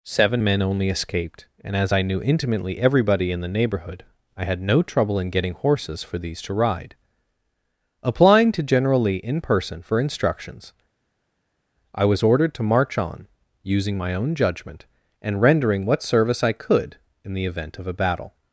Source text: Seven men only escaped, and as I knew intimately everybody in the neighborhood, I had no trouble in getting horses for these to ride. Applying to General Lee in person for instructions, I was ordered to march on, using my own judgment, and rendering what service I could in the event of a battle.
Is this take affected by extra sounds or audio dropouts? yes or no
no